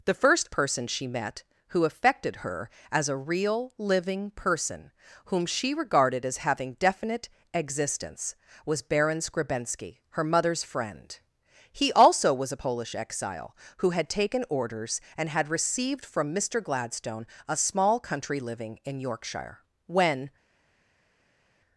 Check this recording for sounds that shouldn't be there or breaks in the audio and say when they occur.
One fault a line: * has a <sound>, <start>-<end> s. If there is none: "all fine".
all fine